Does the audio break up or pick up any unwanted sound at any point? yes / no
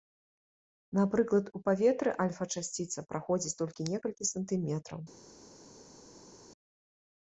no